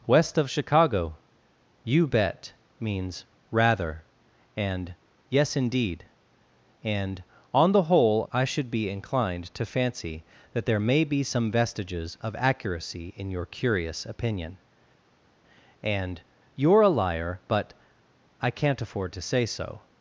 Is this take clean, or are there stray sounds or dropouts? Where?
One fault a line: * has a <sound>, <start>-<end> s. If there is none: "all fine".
all fine